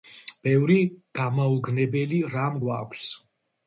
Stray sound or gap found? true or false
false